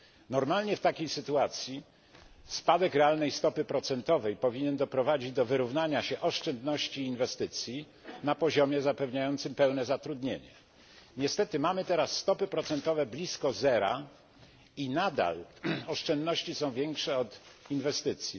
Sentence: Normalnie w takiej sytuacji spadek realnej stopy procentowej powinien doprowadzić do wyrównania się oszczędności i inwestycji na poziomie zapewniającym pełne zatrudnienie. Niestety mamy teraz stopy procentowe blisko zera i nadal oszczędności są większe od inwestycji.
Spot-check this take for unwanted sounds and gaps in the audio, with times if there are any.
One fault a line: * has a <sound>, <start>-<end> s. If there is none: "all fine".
all fine